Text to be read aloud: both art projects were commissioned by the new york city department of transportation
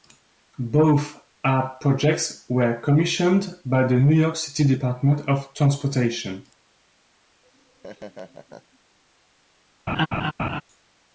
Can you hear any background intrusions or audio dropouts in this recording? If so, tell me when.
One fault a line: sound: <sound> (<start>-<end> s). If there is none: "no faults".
sound: laugh (7.4-8.8 s)
sound: laugh (9.9-10.6 s)